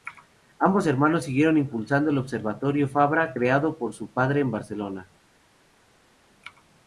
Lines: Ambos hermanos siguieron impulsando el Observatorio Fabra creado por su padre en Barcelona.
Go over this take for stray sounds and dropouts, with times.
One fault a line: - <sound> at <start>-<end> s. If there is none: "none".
none